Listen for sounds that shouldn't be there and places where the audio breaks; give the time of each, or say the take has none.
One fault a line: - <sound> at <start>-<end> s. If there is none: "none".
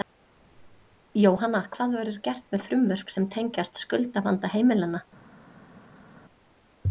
none